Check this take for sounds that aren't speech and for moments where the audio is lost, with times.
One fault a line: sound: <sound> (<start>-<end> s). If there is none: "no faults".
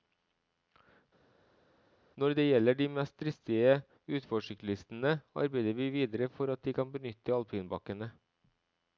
no faults